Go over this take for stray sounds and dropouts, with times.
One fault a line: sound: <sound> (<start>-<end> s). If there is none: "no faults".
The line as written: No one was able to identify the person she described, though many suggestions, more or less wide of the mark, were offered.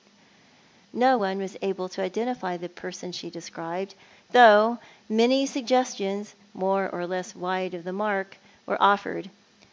no faults